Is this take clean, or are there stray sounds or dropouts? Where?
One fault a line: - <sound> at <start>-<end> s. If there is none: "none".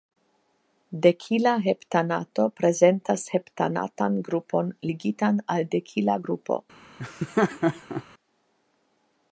- laugh at 7.0-8.0 s